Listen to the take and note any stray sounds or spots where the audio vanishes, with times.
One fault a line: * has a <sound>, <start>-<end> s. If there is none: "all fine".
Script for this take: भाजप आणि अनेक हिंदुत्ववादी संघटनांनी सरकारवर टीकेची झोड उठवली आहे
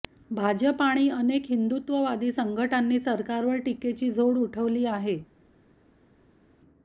all fine